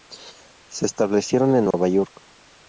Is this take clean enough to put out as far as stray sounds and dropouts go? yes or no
no